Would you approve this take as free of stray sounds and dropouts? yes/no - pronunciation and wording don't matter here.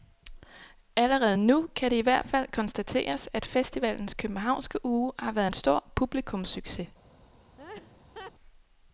no